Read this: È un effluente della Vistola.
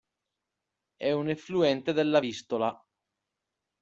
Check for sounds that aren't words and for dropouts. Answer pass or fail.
pass